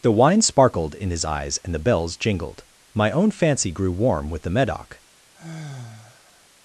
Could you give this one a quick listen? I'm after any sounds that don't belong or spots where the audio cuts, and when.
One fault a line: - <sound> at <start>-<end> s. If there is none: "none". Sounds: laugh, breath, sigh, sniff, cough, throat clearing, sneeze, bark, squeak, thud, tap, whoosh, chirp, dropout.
- sigh at 5.3-6.5 s